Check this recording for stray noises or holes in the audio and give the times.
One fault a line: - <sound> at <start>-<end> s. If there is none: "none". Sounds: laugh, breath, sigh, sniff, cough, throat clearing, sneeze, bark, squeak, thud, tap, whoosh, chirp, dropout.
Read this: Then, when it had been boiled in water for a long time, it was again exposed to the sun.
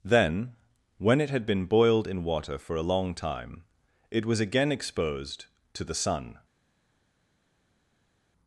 none